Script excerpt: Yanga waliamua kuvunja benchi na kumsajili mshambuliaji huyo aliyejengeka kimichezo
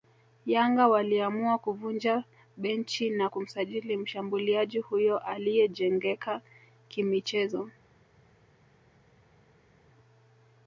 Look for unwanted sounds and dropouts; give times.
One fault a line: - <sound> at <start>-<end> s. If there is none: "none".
none